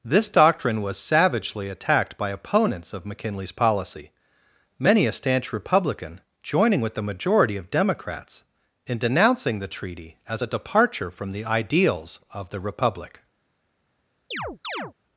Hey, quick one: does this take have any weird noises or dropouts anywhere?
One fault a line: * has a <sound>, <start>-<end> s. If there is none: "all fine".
* has a chirp, 14.3-14.9 s